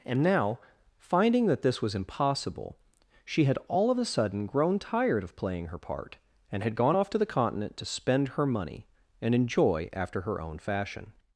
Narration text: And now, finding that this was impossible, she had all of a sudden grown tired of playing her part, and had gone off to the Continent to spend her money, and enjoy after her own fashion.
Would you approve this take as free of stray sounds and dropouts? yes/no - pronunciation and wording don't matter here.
yes